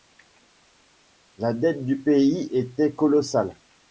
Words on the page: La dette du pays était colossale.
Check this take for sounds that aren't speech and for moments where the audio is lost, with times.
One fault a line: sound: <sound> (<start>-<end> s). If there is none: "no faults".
no faults